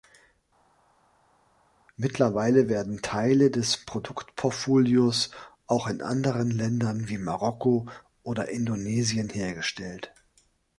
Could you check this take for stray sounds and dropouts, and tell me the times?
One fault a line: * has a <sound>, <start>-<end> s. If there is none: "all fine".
all fine